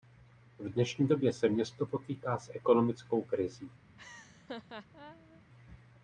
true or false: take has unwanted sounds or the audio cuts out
true